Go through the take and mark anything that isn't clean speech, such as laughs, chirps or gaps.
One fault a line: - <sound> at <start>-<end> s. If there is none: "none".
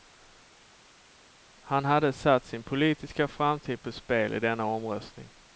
none